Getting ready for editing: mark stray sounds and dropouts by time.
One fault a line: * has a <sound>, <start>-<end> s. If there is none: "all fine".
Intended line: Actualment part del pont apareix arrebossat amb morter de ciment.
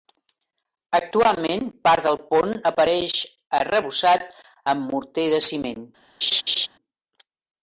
* has a laugh, 6.2-6.7 s